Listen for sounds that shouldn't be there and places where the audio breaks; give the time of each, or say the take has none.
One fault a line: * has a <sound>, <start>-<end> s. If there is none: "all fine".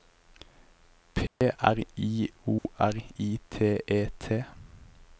* has a dropout, 1.3-1.4 s
* has a dropout, 2.6-2.7 s